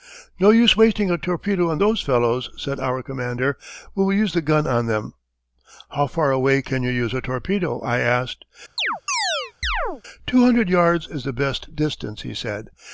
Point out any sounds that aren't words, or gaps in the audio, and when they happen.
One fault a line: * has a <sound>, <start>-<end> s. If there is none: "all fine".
* has a chirp, 8.8-10.0 s